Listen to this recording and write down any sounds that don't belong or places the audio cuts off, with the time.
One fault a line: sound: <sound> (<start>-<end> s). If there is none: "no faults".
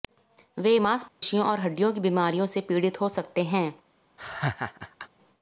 sound: dropout (1.1-1.2 s)
sound: laugh (4.2-5.1 s)